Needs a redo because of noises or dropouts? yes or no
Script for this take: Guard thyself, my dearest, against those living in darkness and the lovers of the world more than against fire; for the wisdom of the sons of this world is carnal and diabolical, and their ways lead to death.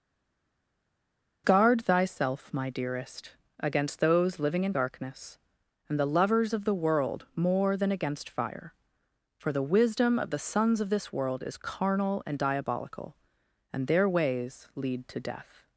no